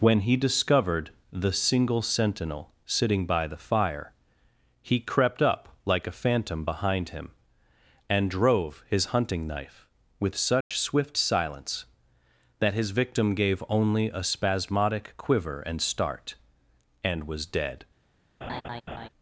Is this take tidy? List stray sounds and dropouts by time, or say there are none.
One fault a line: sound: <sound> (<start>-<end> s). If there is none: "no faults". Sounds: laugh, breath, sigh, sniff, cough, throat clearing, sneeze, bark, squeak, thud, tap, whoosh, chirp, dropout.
sound: dropout (10.6-10.7 s)
sound: laugh (18.4-19.1 s)